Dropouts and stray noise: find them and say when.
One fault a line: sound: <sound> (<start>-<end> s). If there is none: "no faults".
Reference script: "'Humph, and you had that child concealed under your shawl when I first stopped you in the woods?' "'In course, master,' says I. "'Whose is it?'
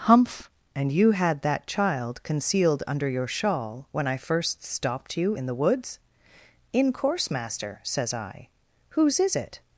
no faults